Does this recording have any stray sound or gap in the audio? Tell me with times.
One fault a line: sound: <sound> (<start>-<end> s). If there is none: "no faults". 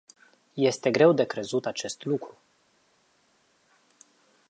no faults